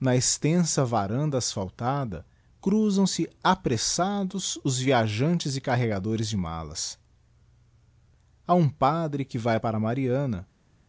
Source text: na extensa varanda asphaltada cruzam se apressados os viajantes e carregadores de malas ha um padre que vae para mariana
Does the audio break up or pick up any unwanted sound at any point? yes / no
no